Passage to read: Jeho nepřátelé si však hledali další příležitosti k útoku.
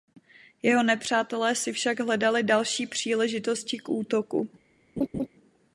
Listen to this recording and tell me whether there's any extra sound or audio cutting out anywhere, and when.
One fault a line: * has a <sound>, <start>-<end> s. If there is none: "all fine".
* has a laugh, 5.0-5.3 s